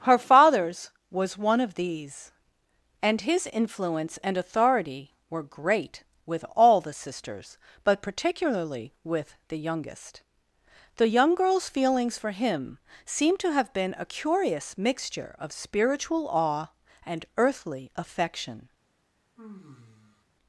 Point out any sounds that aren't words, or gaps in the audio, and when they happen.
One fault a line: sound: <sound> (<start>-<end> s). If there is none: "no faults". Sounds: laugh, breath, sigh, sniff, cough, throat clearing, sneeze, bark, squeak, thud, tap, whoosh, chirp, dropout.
sound: sigh (19.4-20.2 s)